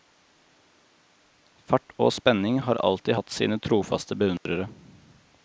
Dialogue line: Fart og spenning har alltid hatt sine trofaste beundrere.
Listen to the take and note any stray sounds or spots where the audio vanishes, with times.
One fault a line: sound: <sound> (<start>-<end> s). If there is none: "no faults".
sound: dropout (4.4-4.5 s)